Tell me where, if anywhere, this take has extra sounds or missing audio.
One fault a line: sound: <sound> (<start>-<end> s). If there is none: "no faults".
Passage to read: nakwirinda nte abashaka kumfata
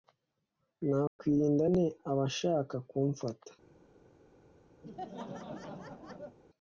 sound: dropout (1.1-1.2 s)
sound: laugh (4.8-6.4 s)